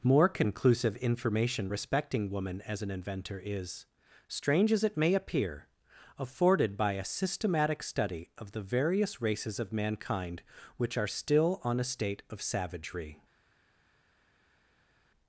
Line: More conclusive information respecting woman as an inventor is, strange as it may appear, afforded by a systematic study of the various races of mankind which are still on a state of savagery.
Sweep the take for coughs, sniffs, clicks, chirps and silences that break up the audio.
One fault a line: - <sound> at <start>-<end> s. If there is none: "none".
none